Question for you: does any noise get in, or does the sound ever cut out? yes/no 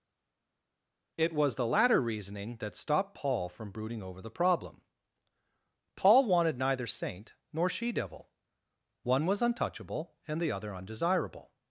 no